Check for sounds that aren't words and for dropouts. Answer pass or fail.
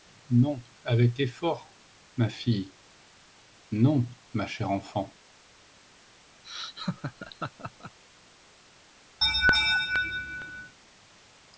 fail